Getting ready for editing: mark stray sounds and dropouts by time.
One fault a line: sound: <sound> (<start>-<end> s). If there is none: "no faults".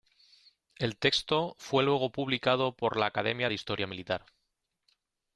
no faults